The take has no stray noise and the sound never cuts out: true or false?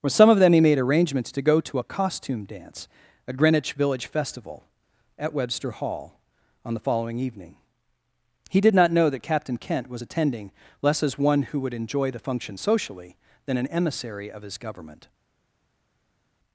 true